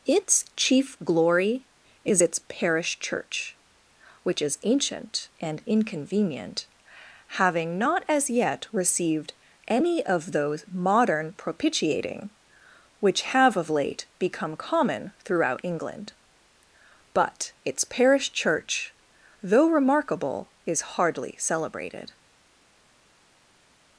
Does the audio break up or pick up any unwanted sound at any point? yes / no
no